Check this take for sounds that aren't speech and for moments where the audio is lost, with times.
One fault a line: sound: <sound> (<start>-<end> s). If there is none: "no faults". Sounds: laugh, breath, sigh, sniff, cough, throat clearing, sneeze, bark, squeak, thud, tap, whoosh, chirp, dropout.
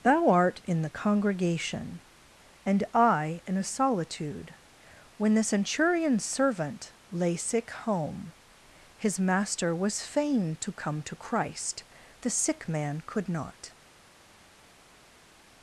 no faults